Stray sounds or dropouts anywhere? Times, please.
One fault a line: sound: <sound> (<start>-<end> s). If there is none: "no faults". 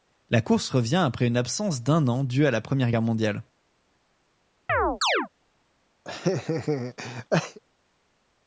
sound: chirp (4.7-5.3 s)
sound: laugh (6.0-7.6 s)